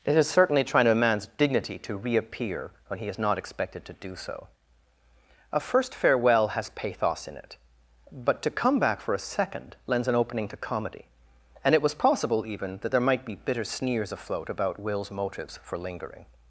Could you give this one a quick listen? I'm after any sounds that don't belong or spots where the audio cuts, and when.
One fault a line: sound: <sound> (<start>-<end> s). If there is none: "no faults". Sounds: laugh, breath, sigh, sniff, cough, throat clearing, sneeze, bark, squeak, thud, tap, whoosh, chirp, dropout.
no faults